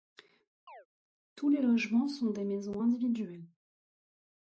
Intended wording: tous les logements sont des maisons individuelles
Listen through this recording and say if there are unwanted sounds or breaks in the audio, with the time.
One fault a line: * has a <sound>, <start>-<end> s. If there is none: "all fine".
* has a chirp, 0.7-0.9 s